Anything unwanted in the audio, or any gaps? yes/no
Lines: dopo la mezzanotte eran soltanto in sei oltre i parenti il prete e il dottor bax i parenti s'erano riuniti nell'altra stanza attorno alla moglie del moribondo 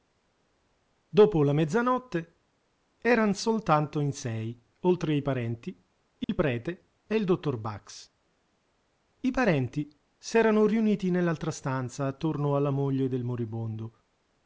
yes